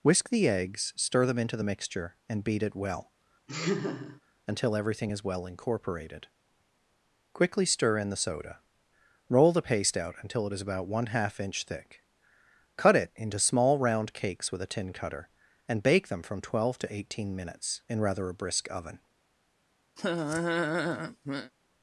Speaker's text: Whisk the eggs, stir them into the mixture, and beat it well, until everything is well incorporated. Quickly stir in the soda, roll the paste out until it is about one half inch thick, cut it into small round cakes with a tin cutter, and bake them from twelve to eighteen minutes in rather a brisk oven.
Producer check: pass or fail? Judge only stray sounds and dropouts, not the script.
fail